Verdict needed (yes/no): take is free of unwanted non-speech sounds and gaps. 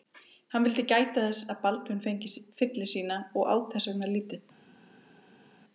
yes